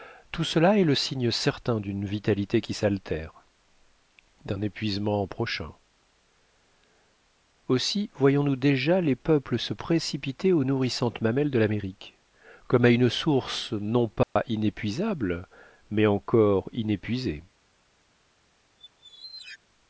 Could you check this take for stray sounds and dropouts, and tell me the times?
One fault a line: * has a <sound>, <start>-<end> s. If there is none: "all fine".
* has a dropout, 14.2-14.4 s
* has a squeak, 18.8-19.6 s